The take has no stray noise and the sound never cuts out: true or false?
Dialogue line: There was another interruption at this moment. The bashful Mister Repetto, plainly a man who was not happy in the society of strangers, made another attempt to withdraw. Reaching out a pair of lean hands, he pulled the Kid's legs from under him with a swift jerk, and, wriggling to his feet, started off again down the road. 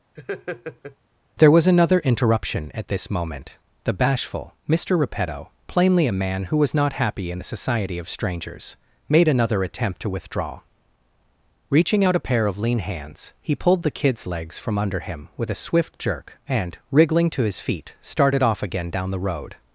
false